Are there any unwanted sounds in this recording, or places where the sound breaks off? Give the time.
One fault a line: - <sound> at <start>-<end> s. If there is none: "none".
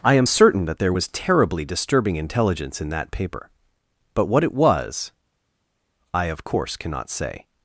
none